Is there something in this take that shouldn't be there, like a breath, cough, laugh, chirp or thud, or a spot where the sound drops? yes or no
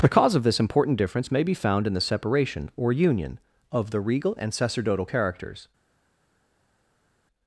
no